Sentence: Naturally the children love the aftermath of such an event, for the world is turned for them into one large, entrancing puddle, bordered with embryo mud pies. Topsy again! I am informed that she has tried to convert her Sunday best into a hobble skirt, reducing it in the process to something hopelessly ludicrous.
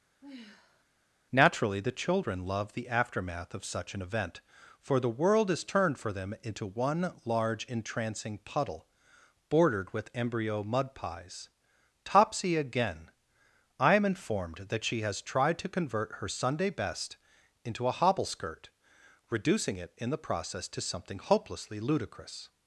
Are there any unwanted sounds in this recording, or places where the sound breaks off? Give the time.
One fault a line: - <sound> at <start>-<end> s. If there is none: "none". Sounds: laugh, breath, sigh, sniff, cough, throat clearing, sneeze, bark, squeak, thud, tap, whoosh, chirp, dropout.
- sigh at 0.2-0.8 s